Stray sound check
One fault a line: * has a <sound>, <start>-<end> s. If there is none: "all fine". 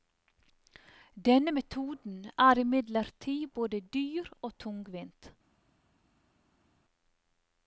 all fine